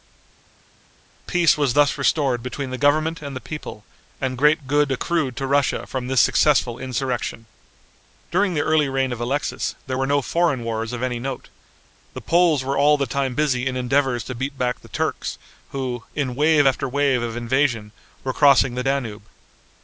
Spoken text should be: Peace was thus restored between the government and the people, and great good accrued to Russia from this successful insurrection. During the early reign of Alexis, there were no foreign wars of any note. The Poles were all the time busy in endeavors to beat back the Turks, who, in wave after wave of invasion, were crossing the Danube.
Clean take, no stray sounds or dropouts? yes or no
yes